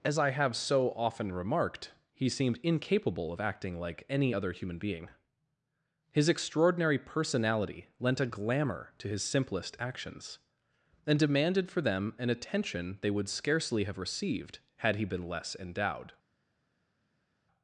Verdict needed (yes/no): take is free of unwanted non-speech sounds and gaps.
yes